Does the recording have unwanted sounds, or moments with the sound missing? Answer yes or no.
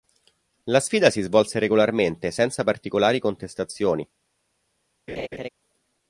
yes